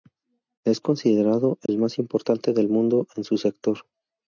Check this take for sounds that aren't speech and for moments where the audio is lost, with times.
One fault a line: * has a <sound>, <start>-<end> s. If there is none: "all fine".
* has a dropout, 1.7-1.7 s